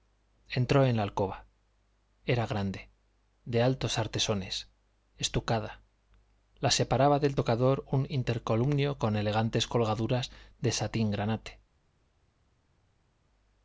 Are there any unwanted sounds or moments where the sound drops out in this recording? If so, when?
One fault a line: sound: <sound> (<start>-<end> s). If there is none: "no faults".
no faults